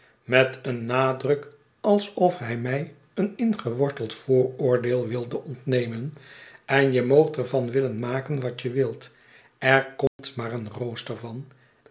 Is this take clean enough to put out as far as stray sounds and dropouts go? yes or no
no